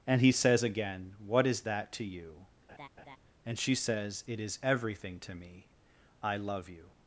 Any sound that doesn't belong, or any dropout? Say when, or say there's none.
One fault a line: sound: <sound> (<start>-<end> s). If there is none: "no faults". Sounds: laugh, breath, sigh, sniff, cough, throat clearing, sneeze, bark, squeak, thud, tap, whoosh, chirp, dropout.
sound: laugh (2.7-3.2 s)